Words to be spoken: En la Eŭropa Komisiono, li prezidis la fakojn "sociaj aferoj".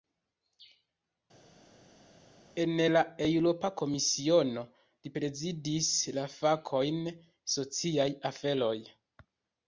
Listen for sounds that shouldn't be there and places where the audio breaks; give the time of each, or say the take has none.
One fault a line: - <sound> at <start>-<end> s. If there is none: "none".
none